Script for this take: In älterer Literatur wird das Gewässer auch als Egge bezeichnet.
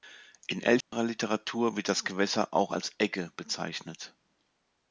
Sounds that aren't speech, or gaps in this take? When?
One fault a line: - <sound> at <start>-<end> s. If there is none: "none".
- dropout at 0.8-0.9 s